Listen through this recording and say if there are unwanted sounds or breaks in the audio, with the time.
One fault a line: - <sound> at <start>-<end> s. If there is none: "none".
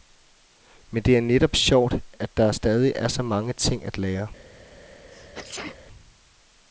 - sneeze at 5.1-5.8 s